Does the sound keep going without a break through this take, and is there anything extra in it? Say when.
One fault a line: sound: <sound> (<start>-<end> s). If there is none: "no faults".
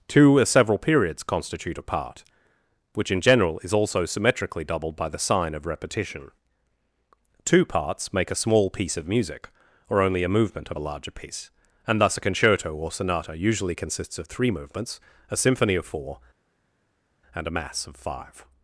no faults